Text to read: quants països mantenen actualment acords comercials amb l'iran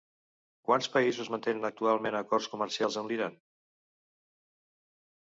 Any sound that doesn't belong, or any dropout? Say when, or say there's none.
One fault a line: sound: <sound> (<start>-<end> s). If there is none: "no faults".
no faults